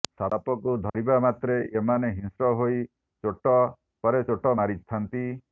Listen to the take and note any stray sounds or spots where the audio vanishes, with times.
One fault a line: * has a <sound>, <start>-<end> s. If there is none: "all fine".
* has a dropout, 0.9-0.9 s